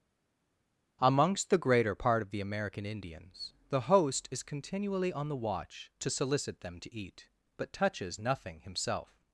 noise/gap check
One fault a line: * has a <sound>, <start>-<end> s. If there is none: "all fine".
all fine